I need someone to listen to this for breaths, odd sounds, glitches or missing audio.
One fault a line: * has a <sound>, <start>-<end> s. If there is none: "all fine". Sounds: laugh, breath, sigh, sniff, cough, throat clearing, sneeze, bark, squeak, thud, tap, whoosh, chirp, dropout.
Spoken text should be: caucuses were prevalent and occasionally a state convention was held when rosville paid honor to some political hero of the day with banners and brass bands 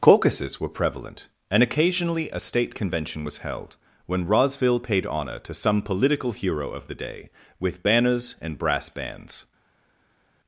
all fine